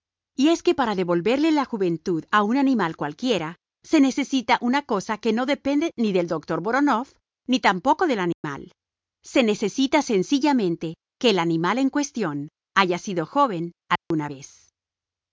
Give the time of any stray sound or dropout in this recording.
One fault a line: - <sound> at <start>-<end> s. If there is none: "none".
- dropout at 8.3-8.4 s
- dropout at 14.0-14.1 s